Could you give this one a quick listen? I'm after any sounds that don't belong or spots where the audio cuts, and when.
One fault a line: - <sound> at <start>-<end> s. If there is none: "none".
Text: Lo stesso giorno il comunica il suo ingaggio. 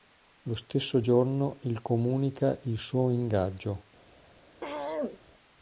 - throat clearing at 4.6-5.2 s